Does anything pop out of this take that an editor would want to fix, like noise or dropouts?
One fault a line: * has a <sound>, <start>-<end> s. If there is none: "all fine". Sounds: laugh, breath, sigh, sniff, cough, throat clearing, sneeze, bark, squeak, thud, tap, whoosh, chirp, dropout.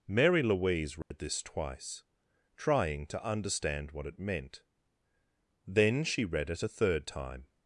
* has a dropout, 1.0-1.1 s